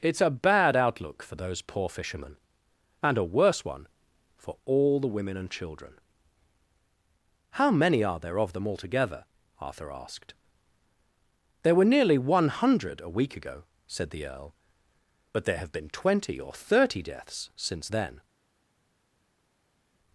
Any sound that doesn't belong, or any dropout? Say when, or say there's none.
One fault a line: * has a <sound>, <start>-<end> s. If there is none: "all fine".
all fine